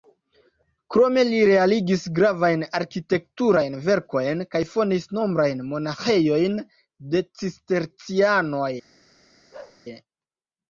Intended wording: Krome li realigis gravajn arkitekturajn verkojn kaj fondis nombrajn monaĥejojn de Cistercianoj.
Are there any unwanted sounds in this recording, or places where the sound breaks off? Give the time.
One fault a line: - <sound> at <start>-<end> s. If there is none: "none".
- bark at 9.5-9.8 s